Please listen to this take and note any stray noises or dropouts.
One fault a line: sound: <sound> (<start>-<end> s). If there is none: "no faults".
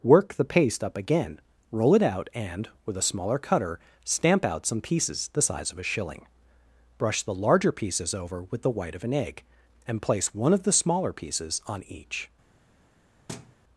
sound: thud (13.3-13.6 s)